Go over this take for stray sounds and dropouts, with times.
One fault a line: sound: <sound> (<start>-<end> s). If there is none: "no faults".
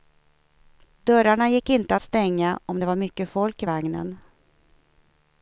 no faults